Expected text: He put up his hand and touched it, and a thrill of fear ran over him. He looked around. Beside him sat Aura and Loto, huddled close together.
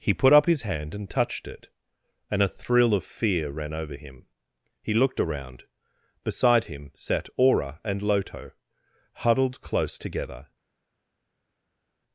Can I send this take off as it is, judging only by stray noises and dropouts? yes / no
yes